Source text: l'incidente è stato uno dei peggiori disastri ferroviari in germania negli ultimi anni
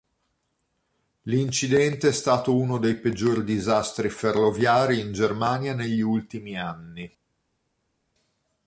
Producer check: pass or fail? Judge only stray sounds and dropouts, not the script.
pass